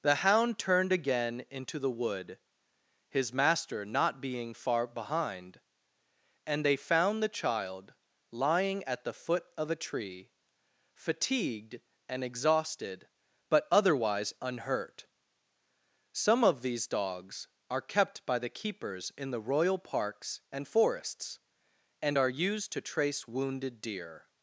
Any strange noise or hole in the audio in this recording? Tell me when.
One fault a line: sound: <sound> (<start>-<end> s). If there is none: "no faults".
no faults